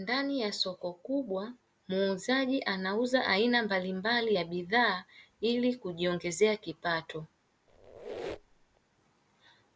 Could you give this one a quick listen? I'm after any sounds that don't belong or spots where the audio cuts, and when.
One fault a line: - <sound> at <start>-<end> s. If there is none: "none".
- squeak at 7.7-8.8 s